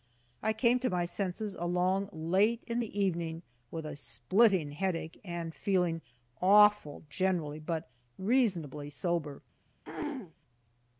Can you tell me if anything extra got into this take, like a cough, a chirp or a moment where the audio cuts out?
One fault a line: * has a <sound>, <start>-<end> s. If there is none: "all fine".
* has a throat clearing, 9.8-10.3 s